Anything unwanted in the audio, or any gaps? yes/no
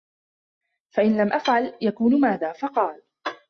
no